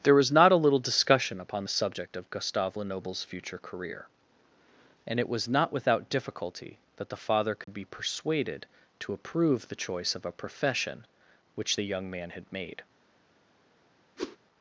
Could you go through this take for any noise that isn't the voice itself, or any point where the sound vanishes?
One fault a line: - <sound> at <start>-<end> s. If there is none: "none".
- dropout at 7.6-7.7 s
- whoosh at 14.2-14.4 s